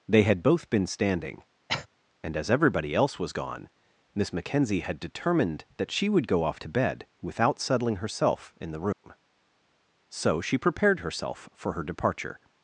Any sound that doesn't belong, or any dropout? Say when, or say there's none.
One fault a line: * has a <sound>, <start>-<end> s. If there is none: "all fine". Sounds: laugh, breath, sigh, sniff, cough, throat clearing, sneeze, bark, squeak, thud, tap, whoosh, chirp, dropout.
* has a cough, 1.7-1.9 s
* has a dropout, 8.9-9.0 s